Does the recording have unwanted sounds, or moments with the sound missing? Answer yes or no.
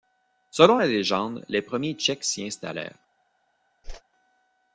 yes